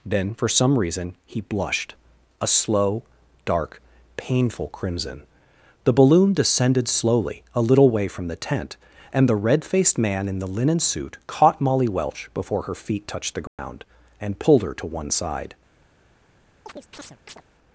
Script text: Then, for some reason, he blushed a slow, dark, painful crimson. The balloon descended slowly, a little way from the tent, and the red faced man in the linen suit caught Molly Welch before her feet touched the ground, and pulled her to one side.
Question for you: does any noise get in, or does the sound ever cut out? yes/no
yes